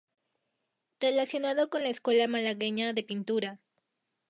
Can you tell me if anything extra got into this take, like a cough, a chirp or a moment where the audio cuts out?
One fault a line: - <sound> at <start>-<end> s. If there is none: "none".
none